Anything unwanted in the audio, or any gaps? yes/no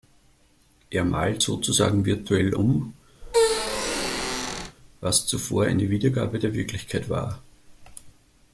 yes